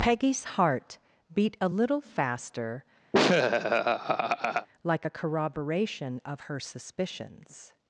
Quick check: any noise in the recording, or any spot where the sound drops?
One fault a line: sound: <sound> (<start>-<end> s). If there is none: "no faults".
sound: laugh (3.1-4.7 s)